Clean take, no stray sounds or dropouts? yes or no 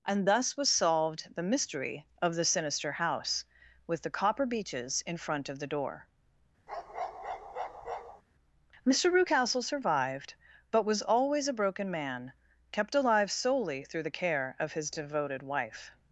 no